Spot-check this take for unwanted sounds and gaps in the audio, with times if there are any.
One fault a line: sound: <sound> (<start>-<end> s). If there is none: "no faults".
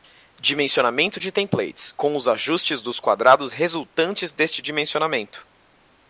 no faults